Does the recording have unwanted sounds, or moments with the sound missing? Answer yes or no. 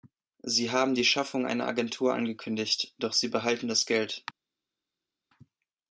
no